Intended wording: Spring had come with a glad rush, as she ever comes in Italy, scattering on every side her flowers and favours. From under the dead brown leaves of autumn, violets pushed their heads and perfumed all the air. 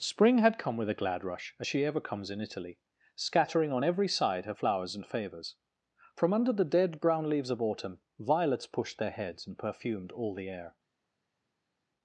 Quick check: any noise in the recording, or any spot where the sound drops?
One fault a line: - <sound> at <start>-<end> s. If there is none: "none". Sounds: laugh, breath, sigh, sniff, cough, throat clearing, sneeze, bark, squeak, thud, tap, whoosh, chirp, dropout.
none